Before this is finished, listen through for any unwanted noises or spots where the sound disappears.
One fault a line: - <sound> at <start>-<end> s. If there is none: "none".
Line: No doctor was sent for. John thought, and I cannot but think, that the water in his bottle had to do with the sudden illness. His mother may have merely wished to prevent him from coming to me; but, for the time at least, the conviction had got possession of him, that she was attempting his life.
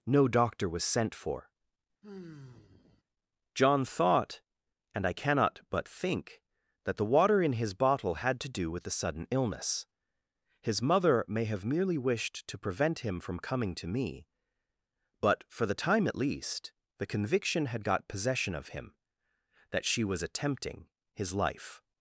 - sigh at 2.0-3.0 s